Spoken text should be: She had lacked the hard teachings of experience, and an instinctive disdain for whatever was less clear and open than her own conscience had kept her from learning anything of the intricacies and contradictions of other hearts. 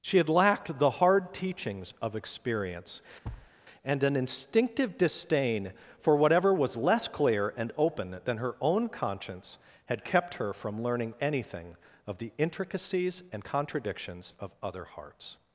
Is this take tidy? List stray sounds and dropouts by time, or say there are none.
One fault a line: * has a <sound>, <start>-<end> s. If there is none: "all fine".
* has a thud, 3.2-3.5 s